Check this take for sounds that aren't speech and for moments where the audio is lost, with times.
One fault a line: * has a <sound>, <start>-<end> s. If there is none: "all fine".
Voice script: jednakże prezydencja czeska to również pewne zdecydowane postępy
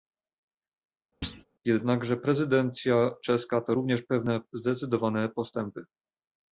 * has a thud, 1.2-1.4 s